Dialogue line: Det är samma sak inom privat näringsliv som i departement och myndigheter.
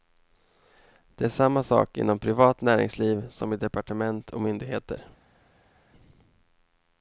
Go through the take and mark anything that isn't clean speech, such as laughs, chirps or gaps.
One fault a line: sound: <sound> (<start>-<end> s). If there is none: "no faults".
no faults